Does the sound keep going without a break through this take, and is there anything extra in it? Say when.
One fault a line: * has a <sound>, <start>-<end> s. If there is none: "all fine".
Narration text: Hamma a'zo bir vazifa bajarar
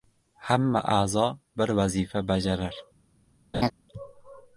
* has a laugh, 3.5-3.7 s